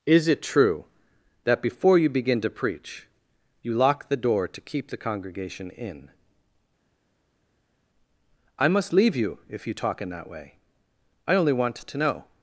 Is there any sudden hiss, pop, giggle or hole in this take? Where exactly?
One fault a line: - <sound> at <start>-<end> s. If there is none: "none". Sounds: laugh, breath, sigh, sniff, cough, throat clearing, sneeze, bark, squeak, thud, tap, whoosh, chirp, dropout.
none